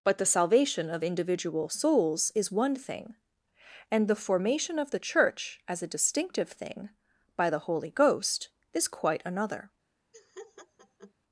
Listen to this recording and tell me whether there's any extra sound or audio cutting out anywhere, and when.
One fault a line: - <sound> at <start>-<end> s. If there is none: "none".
- laugh at 10.1-11.1 s